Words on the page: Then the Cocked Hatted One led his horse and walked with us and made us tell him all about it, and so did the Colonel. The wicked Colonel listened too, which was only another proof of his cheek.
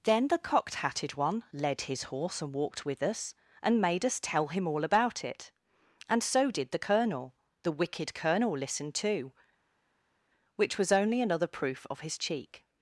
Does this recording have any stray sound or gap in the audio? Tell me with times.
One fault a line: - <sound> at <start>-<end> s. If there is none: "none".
none